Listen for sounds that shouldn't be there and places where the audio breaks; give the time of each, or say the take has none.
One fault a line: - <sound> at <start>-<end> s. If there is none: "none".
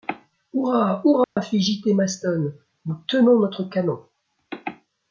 - dropout at 1.2-1.4 s